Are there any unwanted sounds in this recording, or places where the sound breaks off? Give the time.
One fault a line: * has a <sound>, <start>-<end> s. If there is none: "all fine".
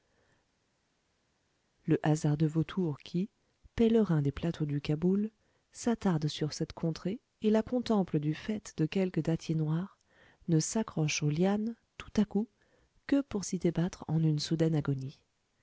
all fine